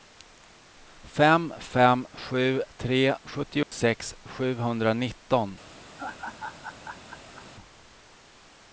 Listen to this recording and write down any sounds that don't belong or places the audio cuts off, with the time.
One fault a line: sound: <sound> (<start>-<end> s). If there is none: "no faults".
sound: dropout (3.6-3.7 s)
sound: laugh (6.0-7.5 s)